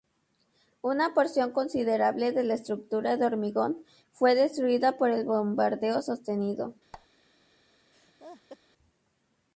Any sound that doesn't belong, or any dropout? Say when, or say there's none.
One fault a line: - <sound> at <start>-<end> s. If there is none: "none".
- squeak at 6.9-7.1 s
- laugh at 7.9-8.6 s